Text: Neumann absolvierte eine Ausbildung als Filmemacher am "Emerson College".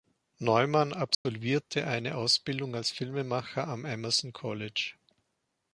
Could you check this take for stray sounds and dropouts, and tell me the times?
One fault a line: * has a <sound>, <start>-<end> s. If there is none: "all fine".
* has a dropout, 1.1-1.3 s